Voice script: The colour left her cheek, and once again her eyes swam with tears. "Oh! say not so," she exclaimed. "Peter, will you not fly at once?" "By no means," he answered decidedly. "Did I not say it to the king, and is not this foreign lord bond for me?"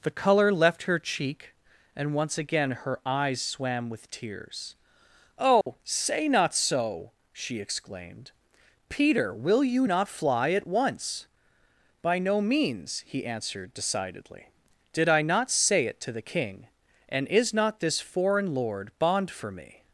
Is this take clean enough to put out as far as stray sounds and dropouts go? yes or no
no